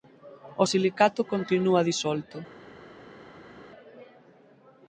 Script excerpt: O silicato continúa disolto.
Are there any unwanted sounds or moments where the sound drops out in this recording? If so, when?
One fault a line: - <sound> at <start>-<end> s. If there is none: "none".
none